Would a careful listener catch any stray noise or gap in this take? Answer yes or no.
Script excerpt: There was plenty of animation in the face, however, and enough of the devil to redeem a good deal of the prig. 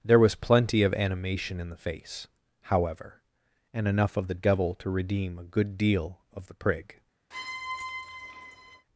yes